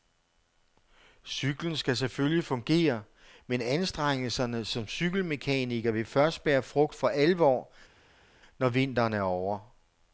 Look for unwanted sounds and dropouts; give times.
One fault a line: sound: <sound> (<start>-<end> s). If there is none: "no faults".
no faults